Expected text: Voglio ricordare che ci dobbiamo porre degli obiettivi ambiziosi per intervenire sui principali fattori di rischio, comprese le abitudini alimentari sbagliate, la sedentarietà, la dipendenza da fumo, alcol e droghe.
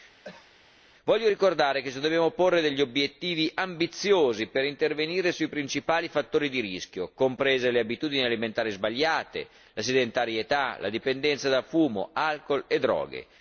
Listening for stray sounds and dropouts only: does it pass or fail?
fail